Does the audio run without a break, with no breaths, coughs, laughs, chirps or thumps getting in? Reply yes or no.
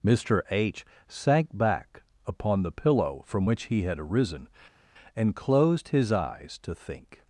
yes